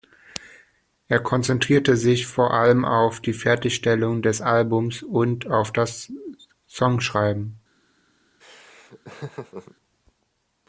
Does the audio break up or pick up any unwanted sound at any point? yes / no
yes